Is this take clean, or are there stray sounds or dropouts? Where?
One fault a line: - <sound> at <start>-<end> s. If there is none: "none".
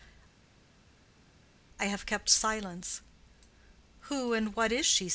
none